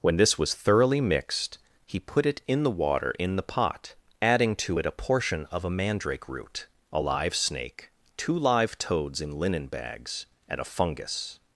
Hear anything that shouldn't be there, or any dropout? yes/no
no